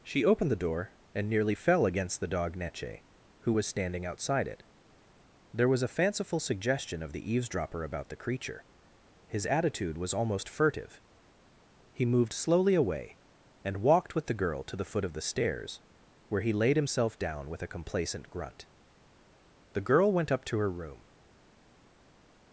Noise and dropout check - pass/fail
pass